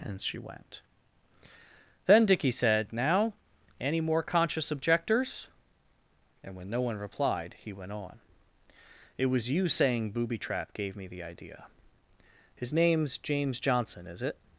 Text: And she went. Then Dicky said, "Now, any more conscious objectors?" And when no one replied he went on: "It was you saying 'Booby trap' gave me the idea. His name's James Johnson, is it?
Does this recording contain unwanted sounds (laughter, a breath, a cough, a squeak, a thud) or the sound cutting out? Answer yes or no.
no